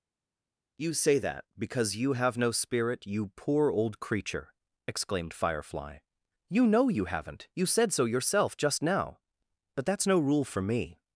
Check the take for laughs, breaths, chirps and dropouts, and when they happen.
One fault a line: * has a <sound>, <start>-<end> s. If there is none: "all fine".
all fine